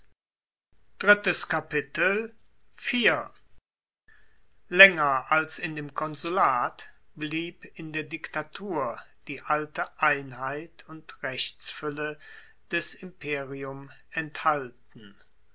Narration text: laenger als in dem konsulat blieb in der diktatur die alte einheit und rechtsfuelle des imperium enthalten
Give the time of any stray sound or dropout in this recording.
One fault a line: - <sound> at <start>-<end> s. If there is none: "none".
none